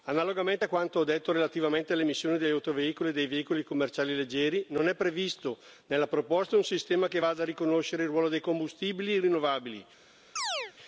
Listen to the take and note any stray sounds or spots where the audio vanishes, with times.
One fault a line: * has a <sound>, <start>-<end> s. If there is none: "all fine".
* has a chirp, 10.4-10.7 s